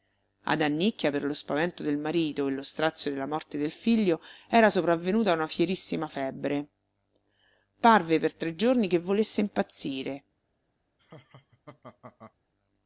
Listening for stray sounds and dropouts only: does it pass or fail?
fail